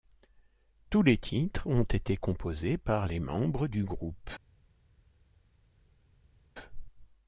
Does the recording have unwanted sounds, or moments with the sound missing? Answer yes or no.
no